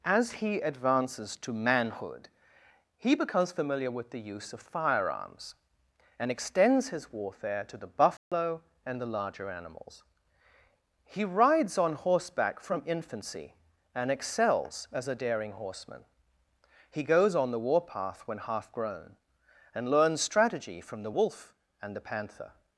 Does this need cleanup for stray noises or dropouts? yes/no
yes